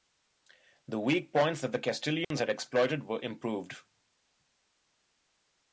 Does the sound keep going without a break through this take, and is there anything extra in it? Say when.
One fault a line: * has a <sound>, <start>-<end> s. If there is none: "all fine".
* has a dropout, 2.2-2.3 s